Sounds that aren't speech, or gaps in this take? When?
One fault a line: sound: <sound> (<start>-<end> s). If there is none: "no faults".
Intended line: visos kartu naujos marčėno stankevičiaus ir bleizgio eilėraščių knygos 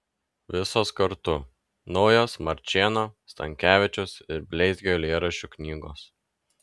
no faults